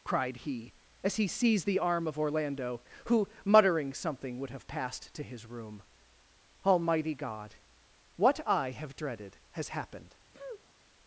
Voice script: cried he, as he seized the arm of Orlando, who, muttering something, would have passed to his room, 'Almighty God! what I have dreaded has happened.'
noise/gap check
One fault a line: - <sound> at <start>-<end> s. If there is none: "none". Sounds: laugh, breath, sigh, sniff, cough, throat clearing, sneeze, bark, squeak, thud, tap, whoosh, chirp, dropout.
- sniff at 10.3-10.7 s